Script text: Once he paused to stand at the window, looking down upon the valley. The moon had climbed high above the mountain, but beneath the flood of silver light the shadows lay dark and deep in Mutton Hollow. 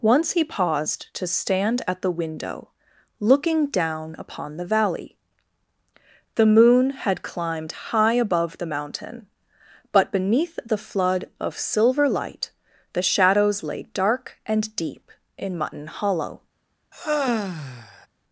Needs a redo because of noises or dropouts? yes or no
yes